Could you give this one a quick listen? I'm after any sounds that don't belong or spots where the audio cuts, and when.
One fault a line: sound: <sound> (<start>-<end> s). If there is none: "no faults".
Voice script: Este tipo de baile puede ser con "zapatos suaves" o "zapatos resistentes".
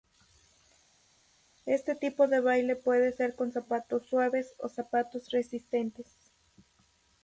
no faults